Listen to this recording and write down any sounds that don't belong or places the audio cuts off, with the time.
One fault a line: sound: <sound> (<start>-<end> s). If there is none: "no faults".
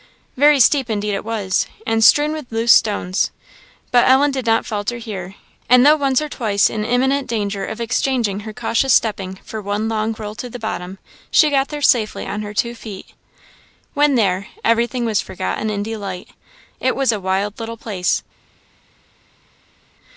no faults